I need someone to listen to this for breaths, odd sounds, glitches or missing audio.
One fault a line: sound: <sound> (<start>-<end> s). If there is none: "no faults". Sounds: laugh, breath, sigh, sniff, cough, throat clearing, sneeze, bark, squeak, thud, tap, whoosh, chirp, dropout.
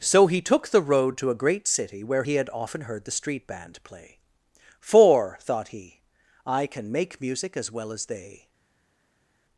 no faults